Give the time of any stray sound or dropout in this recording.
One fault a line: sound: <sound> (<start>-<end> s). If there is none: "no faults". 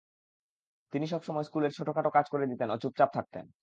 no faults